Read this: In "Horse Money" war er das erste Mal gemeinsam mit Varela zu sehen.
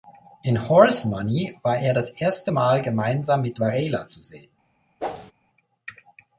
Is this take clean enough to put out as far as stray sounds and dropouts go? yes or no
no